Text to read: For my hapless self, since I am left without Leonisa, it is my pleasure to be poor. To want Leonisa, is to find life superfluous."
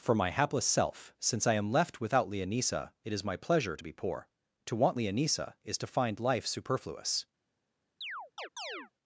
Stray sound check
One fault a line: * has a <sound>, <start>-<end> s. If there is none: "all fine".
* has a chirp, 8.0-8.9 s